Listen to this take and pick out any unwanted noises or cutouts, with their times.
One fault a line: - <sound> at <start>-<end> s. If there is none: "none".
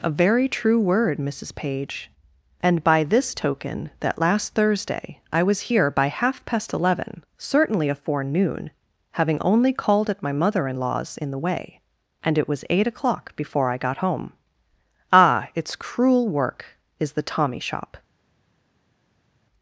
none